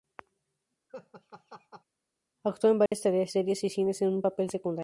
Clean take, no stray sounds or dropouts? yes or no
no